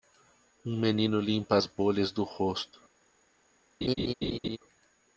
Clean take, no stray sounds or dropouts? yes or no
no